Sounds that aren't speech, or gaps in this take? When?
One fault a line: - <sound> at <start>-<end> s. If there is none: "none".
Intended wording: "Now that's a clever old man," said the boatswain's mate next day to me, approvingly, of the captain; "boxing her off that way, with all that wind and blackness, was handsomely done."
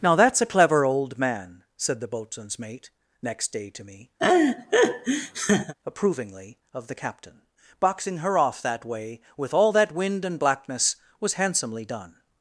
- laugh at 4.2-5.7 s